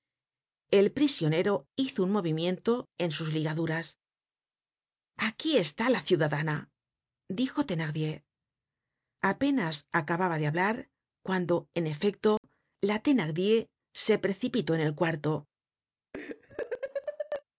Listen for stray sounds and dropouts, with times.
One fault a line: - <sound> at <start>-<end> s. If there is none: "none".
- dropout at 12.4-12.4 s
- laugh at 16.1-17.4 s